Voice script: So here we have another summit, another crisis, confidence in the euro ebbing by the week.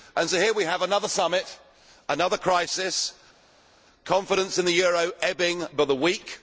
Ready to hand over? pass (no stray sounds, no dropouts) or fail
pass